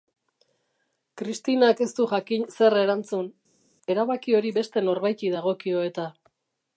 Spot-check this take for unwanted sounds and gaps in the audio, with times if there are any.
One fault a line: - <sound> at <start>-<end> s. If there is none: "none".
none